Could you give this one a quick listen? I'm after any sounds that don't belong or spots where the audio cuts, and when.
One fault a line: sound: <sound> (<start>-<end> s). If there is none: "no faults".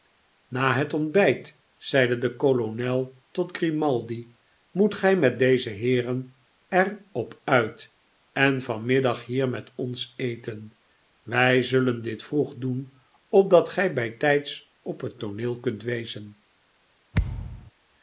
sound: thud (17.1-17.7 s)